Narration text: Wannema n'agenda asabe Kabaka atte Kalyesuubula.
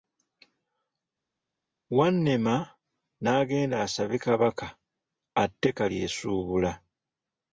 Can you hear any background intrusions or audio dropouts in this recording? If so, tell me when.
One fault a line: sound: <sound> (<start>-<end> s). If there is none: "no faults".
no faults